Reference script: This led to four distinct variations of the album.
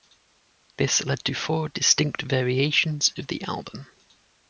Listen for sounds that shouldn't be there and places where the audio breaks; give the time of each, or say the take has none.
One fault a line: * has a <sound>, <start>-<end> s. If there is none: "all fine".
all fine